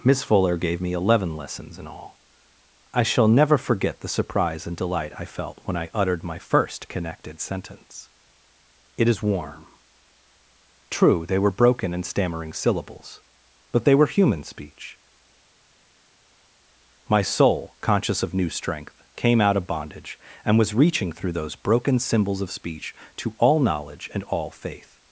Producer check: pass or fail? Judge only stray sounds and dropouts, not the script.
pass